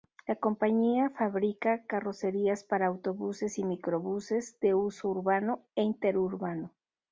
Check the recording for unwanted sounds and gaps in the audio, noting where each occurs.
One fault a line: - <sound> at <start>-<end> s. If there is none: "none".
none